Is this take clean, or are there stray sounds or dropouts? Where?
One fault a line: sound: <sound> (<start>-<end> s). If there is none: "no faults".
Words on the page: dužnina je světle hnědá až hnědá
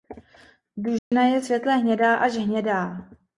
sound: dropout (1.0-1.1 s)